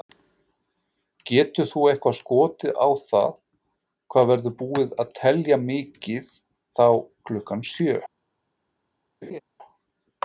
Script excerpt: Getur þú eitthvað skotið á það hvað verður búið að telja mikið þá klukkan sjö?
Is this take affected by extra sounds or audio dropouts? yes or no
yes